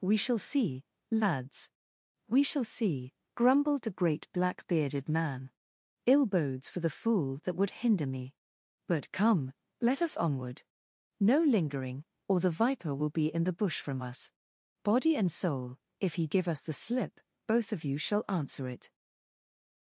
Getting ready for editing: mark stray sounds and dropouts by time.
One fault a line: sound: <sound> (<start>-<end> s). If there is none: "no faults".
no faults